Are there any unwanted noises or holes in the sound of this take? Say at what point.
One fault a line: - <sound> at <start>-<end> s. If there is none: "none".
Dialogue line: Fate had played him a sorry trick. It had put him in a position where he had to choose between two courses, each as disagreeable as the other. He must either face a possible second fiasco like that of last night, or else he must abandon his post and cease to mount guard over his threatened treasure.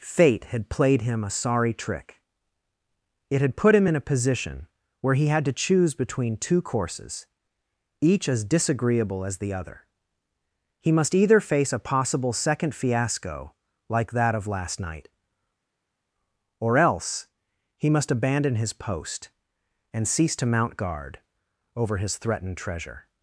none